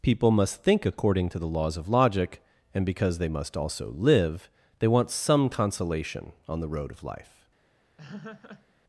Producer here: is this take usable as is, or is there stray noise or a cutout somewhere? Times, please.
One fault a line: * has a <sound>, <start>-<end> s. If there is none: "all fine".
* has a laugh, 8.0-8.7 s